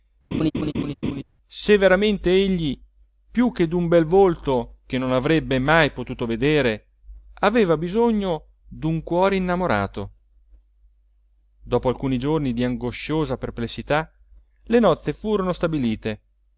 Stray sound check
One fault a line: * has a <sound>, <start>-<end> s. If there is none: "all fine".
* has a laugh, 0.3-1.2 s